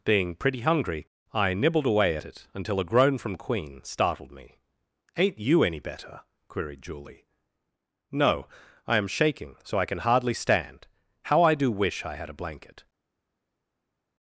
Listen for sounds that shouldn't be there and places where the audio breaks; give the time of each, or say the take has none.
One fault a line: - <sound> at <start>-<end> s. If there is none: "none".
none